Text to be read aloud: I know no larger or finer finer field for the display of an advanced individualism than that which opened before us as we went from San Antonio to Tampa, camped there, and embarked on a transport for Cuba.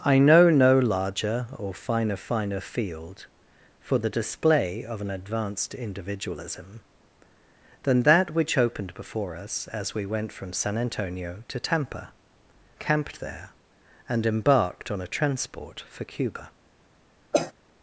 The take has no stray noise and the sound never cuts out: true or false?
false